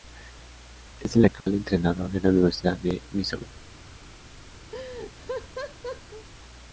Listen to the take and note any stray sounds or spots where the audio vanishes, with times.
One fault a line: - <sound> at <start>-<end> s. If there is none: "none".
- dropout at 1.4-1.5 s
- laugh at 4.7-6.3 s